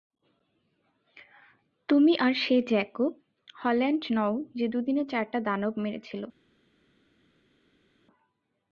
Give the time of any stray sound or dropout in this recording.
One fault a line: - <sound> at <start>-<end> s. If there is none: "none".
none